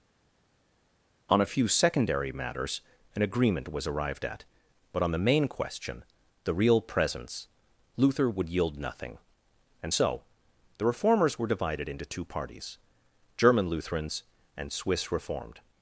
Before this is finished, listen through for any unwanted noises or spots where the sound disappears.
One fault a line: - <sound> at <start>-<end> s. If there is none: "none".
none